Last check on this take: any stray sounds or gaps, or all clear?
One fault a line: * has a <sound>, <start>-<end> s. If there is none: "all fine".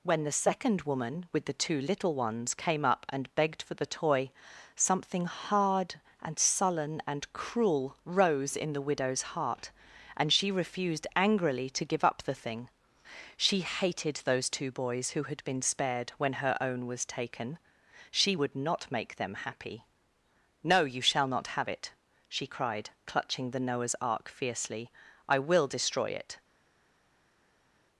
all fine